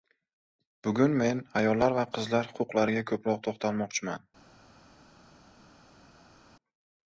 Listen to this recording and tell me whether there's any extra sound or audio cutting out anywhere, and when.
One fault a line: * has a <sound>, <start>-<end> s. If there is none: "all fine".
all fine